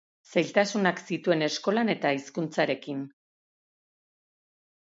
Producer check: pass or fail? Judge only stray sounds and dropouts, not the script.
pass